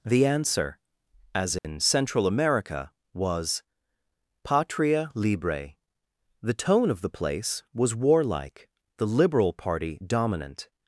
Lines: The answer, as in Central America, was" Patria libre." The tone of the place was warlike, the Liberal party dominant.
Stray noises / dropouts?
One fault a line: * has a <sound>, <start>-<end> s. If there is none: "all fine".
* has a dropout, 1.6-1.6 s